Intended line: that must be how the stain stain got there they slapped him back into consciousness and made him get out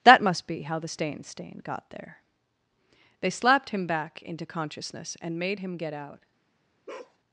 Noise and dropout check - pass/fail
fail